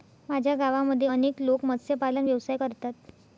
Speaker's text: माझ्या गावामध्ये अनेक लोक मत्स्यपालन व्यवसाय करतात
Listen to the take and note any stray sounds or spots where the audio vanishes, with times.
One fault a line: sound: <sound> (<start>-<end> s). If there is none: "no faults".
no faults